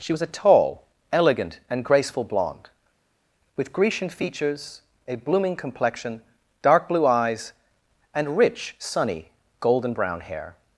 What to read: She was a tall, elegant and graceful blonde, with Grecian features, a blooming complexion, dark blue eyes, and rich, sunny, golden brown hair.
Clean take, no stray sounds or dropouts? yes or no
yes